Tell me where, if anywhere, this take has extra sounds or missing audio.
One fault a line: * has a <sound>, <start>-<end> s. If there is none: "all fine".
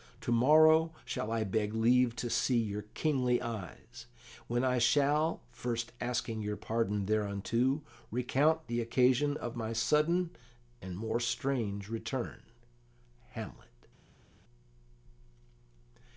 all fine